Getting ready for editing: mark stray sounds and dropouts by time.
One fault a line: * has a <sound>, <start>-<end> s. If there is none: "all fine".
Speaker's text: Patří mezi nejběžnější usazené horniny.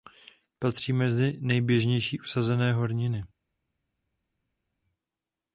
all fine